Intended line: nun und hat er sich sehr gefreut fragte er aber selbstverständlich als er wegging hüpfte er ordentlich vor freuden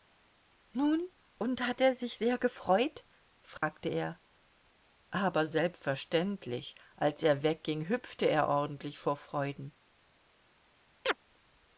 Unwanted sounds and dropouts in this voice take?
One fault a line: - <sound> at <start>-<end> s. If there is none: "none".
- dropout at 3.6-3.6 s
- chirp at 11.0-11.2 s